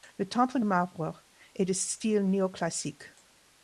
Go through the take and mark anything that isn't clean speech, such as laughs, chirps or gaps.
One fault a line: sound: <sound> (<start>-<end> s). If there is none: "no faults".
no faults